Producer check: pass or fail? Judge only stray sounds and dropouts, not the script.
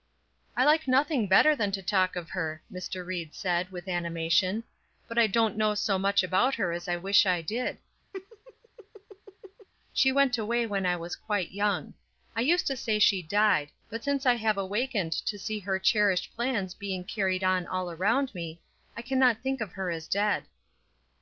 fail